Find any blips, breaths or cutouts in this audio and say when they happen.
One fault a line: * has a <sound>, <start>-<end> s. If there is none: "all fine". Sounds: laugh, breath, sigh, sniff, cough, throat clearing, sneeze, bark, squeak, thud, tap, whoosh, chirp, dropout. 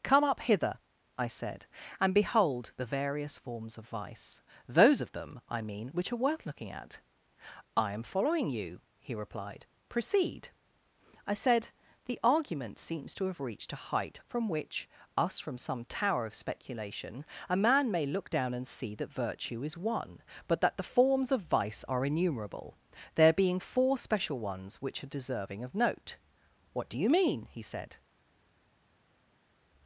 all fine